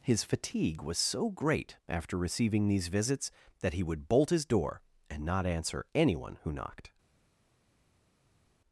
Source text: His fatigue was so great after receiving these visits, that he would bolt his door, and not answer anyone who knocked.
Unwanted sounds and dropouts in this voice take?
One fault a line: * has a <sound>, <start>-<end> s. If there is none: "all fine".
all fine